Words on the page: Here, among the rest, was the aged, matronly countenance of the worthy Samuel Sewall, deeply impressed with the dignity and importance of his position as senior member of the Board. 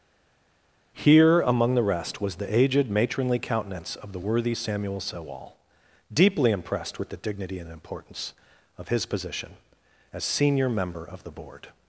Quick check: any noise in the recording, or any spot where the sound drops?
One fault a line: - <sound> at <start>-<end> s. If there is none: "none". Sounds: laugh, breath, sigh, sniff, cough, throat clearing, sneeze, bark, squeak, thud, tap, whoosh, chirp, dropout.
none